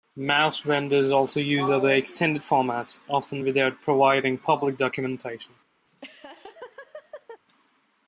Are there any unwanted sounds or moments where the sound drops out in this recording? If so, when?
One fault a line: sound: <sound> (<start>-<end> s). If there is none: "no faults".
sound: laugh (5.9-7.4 s)